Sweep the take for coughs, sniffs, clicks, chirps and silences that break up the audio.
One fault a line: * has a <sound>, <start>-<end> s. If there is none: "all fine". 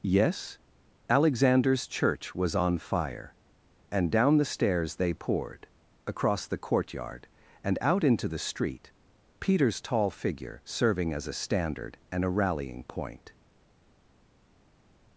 all fine